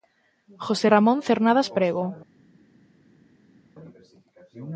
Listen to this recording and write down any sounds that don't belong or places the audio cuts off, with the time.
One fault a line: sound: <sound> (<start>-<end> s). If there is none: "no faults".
no faults